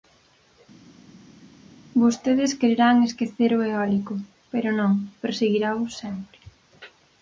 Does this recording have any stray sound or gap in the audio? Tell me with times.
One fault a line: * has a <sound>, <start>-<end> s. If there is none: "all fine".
all fine